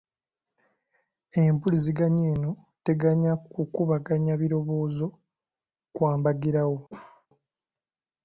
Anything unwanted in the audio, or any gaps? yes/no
yes